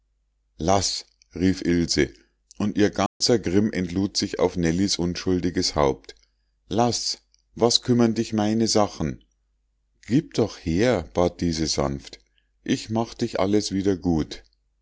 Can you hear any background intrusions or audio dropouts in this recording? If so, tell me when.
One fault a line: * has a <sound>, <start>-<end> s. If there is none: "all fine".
* has a dropout, 3.1-3.2 s